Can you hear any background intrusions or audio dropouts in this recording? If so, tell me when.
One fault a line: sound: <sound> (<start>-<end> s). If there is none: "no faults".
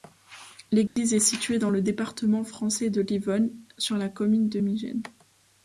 sound: dropout (0.9-1.0 s)